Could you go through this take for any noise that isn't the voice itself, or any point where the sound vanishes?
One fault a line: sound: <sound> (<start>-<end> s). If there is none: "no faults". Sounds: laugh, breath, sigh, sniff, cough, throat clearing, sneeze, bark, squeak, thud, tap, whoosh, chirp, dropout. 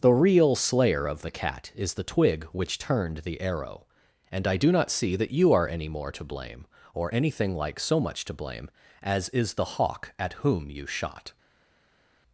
no faults